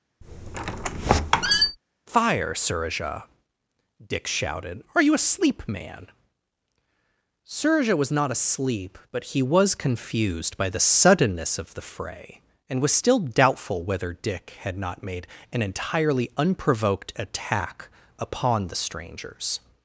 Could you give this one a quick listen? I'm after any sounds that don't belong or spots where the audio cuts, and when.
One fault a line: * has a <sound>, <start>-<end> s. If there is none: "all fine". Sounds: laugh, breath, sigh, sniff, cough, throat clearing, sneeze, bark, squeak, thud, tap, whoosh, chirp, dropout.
* has a squeak, 0.2-1.8 s